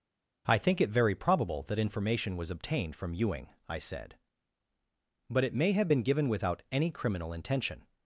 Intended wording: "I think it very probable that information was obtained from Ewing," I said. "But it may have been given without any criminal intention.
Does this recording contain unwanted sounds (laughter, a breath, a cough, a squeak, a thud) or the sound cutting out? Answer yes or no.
no